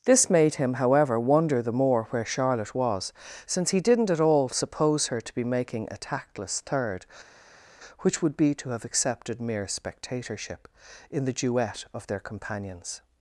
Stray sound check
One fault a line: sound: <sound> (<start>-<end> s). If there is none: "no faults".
no faults